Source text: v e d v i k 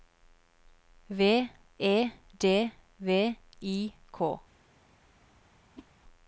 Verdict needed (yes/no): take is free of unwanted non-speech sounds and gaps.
no